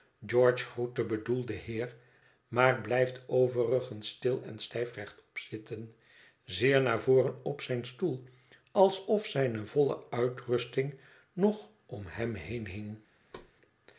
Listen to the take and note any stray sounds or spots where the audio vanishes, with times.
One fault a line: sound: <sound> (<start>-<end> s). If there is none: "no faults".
sound: thud (13.3-13.5 s)